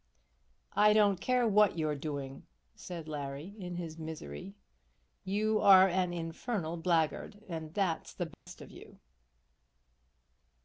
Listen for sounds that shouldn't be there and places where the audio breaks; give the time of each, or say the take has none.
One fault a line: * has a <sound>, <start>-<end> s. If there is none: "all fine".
* has a dropout, 8.3-8.5 s